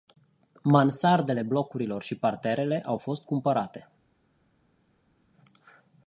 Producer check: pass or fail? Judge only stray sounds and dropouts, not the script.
pass